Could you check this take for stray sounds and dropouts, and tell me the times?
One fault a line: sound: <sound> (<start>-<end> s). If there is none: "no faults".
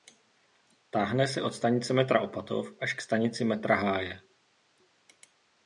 no faults